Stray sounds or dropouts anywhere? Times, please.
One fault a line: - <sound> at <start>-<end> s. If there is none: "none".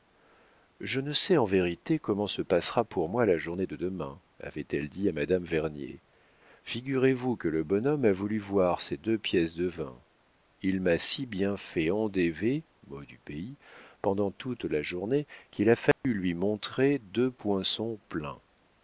- dropout at 15.9-16.0 s